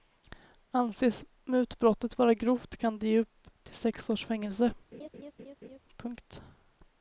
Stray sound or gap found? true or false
true